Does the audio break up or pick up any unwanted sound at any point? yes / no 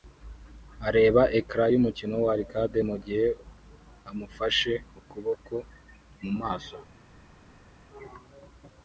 no